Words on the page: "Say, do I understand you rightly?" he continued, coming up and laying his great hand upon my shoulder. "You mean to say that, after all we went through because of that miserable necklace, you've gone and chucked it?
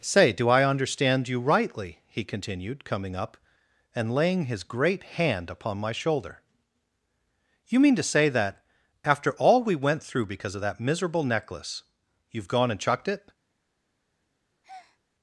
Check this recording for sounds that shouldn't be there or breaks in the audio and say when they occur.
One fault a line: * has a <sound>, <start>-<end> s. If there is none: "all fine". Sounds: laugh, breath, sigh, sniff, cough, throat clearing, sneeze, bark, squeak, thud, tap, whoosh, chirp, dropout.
* has a breath, 14.6-15.0 s